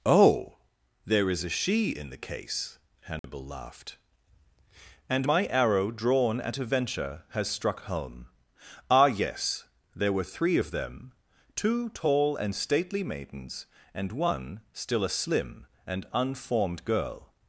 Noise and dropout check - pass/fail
fail